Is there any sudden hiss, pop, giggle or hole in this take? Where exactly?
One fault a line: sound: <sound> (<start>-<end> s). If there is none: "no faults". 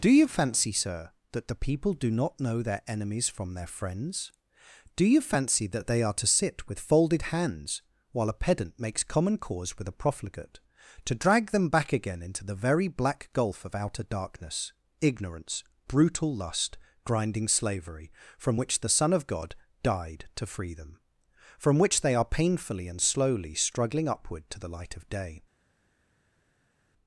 no faults